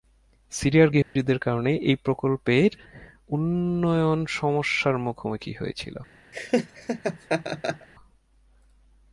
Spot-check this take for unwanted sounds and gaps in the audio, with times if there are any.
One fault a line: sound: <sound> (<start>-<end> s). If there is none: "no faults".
sound: dropout (1.0-1.2 s)
sound: laugh (6.3-7.9 s)